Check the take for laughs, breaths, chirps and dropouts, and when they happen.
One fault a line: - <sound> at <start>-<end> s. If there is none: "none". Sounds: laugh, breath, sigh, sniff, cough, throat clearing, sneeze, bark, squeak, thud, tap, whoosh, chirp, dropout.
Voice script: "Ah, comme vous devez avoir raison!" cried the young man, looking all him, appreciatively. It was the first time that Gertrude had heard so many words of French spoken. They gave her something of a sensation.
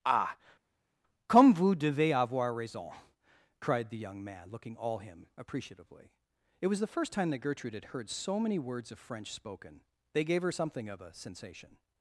none